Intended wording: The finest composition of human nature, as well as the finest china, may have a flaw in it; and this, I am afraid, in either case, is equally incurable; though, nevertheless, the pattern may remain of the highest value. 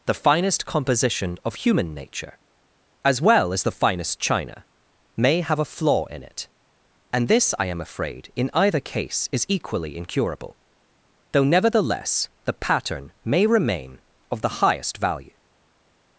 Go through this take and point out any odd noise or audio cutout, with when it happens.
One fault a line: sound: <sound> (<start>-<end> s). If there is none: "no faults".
no faults